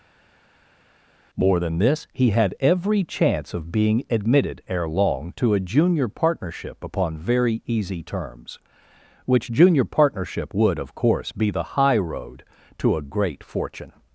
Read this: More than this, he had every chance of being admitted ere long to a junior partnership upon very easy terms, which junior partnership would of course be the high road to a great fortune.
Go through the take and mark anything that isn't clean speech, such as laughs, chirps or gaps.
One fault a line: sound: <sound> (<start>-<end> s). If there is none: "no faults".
no faults